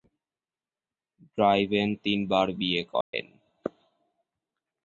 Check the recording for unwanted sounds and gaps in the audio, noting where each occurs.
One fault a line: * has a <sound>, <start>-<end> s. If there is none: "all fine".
* has a dropout, 3.0-3.1 s